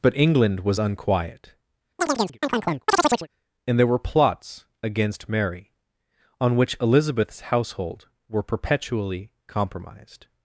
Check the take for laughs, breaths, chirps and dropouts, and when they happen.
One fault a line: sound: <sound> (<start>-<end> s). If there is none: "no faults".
sound: chirp (2.0-3.3 s)